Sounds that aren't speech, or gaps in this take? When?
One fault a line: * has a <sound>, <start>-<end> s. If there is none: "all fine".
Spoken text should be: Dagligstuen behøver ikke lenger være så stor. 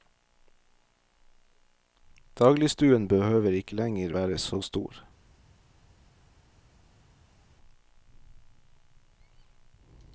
all fine